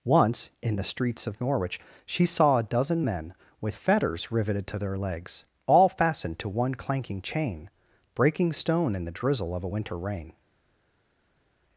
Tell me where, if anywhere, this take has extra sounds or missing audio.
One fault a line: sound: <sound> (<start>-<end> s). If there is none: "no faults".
no faults